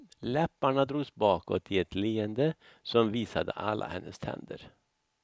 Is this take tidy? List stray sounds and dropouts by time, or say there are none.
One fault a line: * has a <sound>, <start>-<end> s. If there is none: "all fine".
all fine